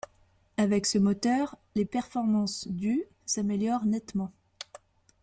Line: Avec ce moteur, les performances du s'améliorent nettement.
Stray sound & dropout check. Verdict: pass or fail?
pass